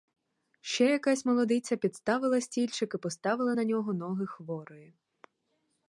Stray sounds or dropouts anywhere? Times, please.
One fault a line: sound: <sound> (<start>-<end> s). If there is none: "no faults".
no faults